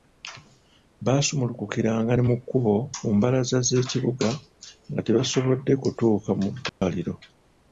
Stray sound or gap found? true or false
true